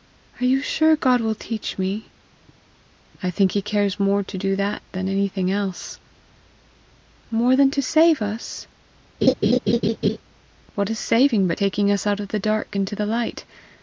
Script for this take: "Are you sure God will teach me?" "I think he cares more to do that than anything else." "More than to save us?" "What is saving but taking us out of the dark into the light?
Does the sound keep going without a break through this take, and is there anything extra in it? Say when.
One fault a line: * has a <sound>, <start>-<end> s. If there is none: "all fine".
* has a laugh, 9.2-10.2 s